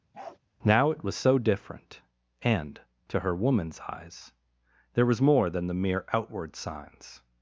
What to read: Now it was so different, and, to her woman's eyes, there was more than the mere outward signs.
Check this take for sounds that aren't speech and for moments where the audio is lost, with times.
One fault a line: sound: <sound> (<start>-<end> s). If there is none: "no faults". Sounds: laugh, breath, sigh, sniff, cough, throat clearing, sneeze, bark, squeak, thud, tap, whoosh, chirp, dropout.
sound: bark (0.1-0.4 s)